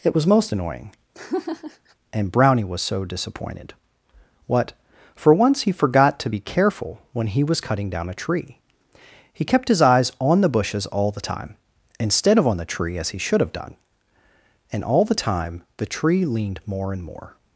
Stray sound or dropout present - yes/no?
yes